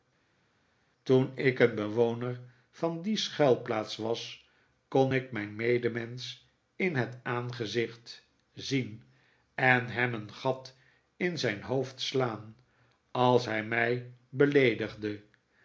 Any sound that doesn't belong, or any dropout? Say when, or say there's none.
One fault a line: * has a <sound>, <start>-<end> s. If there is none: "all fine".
all fine